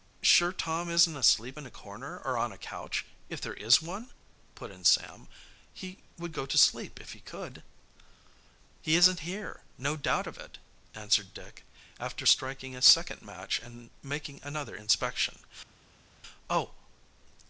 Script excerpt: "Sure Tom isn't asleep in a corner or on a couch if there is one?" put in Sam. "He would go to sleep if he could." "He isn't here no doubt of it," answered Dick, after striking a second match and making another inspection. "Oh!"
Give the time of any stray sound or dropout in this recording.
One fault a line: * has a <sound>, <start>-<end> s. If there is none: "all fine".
all fine